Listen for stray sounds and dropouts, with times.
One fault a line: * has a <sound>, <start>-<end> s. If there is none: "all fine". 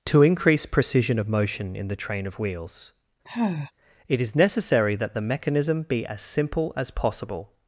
* has a sigh, 3.2-3.7 s